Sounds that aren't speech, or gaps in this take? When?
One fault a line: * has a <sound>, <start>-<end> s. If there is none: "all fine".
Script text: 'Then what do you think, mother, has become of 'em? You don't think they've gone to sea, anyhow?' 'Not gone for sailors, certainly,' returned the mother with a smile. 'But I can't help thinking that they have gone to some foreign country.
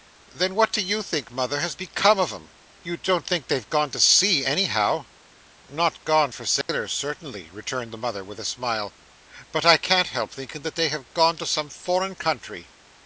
* has a dropout, 6.6-6.7 s